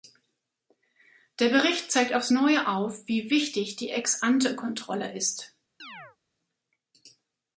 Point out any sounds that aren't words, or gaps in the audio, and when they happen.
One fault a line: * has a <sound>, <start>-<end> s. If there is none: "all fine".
* has a chirp, 5.8-6.2 s